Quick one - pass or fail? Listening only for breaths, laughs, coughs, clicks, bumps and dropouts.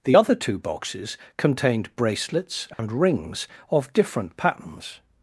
fail